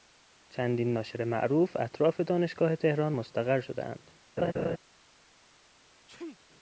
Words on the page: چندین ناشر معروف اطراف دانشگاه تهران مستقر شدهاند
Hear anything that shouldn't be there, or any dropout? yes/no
yes